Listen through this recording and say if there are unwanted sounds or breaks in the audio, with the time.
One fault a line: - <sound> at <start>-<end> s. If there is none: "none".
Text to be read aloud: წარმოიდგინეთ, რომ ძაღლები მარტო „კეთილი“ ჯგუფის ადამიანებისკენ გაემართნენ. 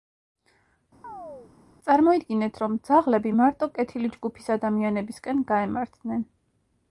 - chirp at 1.0-1.5 s